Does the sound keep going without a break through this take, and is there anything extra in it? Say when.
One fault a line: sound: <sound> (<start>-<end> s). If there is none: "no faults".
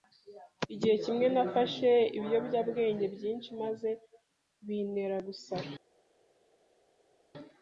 no faults